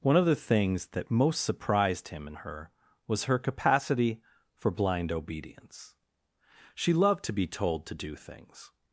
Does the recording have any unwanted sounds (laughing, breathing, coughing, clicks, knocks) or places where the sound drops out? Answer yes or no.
no